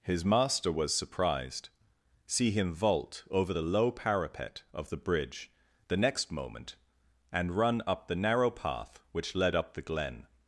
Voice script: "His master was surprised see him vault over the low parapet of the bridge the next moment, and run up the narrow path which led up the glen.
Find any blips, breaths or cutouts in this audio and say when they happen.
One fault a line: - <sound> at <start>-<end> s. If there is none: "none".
none